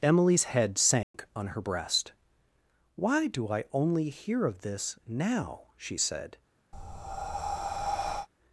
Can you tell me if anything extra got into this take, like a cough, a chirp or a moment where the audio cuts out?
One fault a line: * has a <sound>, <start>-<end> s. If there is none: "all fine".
* has a dropout, 1.0-1.1 s
* has a breath, 6.7-8.3 s